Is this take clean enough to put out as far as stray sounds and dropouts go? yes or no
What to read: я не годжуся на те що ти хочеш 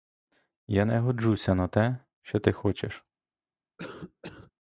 no